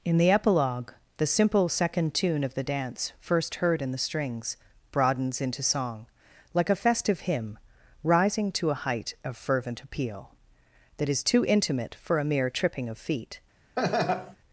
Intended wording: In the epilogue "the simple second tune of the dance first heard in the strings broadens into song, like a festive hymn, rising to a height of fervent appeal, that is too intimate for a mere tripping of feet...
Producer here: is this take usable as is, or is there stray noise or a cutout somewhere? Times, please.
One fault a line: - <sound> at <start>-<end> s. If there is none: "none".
- laugh at 13.8-14.4 s